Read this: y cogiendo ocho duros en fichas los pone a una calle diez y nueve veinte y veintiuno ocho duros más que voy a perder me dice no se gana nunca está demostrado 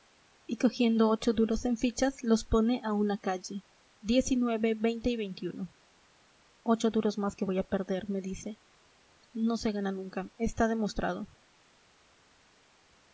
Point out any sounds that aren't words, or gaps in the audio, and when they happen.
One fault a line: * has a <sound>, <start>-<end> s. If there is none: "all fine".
all fine